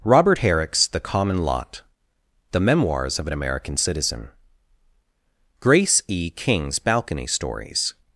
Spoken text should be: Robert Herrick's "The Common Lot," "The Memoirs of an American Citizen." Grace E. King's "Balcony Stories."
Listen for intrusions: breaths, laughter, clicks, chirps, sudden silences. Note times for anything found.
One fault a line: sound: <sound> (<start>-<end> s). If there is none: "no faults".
no faults